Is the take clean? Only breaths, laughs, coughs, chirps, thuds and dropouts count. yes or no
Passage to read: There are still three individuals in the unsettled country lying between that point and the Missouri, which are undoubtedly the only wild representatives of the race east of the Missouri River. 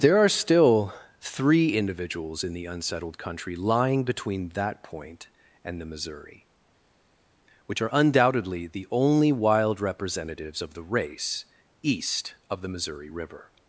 yes